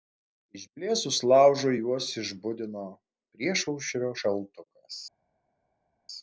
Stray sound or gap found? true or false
false